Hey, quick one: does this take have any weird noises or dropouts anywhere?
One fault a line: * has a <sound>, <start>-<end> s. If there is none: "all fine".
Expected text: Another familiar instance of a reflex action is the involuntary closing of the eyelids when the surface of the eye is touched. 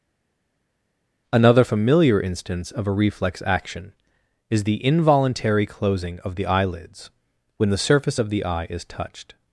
all fine